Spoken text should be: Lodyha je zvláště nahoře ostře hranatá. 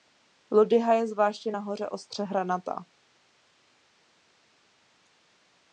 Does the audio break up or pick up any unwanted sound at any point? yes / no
no